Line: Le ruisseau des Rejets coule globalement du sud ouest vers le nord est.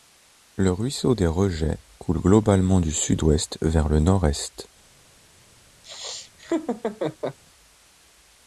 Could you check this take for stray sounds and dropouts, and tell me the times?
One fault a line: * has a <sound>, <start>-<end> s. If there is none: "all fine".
* has a laugh, 5.8-7.4 s